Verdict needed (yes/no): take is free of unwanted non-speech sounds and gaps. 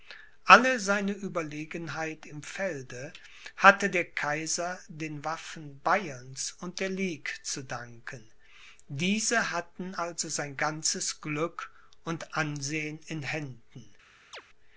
no